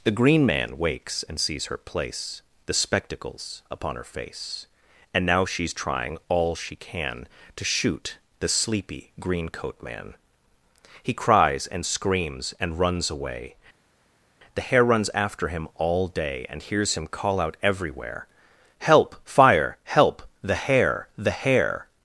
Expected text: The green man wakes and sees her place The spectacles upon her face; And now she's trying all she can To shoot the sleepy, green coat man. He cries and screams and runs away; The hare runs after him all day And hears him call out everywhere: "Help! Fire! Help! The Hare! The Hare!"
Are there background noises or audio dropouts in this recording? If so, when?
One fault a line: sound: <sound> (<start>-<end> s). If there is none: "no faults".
no faults